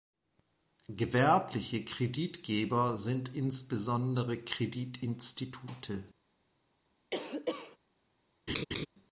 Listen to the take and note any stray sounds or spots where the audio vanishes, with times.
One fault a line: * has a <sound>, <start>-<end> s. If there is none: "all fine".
* has a cough, 7.1-7.8 s
* has a laugh, 8.5-8.9 s